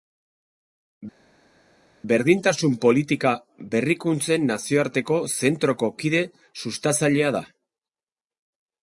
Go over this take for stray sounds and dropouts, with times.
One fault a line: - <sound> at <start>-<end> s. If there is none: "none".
none